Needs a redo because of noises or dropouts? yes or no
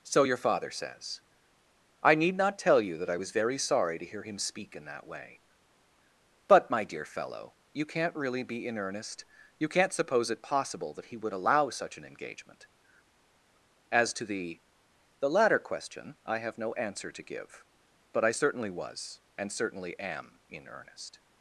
no